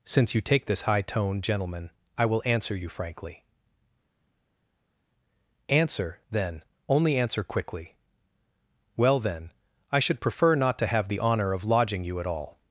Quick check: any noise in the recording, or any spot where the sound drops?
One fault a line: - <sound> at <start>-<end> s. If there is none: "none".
none